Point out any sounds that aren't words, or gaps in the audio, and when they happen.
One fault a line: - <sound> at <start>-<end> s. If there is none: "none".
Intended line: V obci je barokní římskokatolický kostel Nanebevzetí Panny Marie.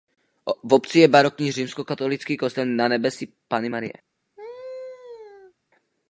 - laugh at 4.4-5.5 s